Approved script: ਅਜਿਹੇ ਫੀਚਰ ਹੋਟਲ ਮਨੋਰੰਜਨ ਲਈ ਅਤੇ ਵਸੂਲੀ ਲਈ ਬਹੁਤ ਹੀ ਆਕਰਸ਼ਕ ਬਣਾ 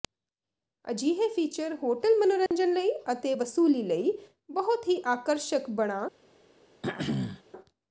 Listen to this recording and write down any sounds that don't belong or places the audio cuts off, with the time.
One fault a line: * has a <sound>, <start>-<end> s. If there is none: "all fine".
* has a dropout, 2.5-2.5 s
* has a throat clearing, 6.8-7.4 s